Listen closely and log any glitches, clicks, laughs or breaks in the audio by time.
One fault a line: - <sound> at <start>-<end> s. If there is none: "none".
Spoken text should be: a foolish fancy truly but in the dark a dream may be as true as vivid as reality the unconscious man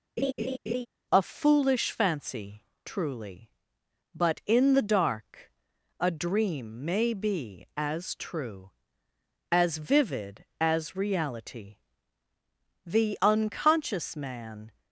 - laugh at 0.2-0.9 s